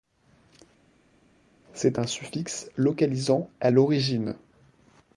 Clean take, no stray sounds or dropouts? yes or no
yes